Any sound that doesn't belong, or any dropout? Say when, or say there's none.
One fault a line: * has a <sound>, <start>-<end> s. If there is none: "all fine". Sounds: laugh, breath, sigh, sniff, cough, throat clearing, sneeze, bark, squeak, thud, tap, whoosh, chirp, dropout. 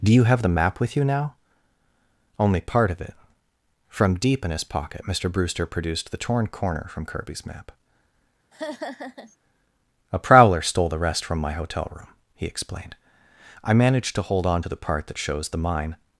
* has a laugh, 8.5-9.4 s